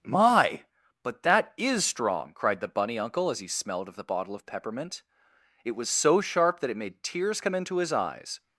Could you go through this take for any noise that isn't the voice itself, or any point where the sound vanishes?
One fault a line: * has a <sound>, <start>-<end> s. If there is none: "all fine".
all fine